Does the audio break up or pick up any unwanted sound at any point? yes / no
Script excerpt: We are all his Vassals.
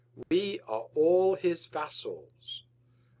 yes